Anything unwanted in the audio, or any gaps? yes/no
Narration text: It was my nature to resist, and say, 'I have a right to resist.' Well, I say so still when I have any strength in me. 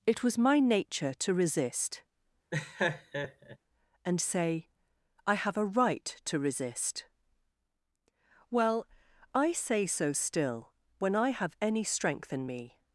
yes